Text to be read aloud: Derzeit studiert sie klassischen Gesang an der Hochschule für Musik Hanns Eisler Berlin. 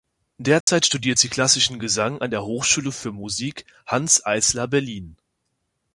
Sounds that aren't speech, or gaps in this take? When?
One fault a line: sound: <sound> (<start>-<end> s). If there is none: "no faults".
sound: dropout (0.6-0.7 s)